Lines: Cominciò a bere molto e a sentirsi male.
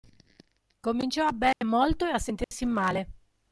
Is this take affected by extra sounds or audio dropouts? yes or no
yes